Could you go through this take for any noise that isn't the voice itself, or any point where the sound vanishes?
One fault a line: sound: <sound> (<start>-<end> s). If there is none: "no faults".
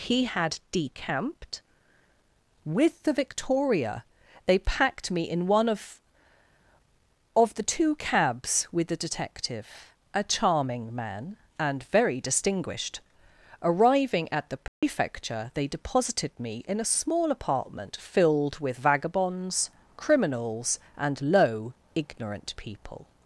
sound: dropout (14.7-14.8 s)